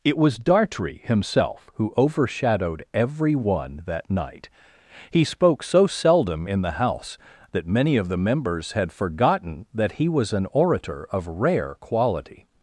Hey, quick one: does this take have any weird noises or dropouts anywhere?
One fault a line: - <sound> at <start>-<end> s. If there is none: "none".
none